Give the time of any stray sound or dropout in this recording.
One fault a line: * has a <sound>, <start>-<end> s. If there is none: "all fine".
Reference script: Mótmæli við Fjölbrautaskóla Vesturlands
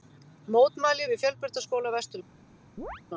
* has a chirp, 2.8-3.0 s